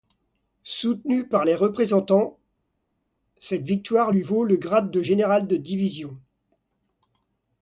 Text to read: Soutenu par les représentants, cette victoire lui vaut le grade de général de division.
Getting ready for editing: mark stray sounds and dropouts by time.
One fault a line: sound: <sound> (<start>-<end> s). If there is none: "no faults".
no faults